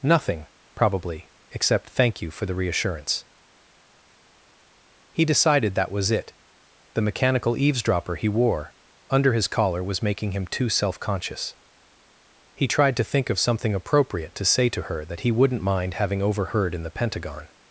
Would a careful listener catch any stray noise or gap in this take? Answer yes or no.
no